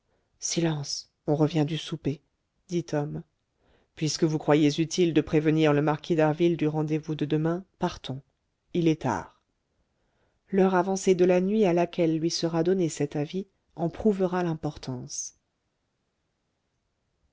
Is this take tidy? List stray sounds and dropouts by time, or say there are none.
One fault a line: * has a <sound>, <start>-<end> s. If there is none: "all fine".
all fine